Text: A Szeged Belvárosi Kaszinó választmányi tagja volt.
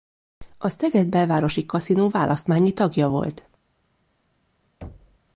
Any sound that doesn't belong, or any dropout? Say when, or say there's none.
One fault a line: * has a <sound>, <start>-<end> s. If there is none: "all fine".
* has a thud, 4.8-5.2 s